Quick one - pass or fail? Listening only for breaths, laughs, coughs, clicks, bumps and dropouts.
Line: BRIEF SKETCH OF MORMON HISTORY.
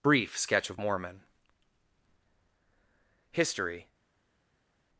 pass